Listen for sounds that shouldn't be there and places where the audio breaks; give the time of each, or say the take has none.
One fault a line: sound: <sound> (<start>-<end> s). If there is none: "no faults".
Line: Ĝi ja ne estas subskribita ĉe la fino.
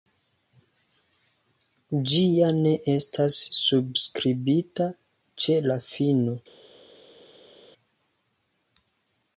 no faults